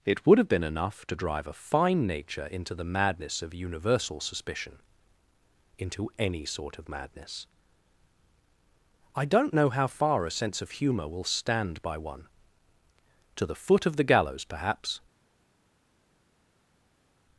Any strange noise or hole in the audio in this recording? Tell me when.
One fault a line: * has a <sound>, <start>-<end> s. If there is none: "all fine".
all fine